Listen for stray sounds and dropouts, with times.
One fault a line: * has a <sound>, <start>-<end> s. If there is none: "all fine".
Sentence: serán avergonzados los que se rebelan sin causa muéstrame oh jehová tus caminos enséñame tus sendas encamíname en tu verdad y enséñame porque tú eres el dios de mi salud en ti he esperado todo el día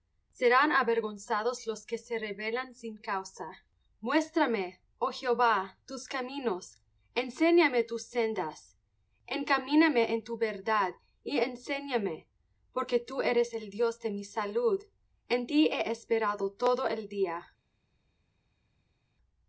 all fine